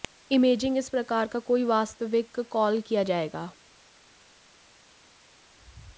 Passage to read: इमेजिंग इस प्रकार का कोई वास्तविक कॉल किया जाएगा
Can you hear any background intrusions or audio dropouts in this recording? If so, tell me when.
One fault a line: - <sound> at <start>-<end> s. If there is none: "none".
none